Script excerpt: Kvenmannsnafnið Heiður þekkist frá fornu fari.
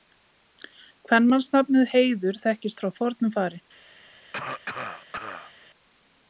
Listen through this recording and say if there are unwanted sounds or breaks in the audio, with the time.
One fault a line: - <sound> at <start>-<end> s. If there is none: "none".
- cough at 4.3-5.5 s